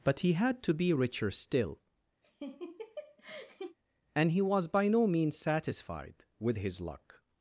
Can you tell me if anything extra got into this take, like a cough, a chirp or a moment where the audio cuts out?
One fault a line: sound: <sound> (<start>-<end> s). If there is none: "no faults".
sound: laugh (2.2-3.8 s)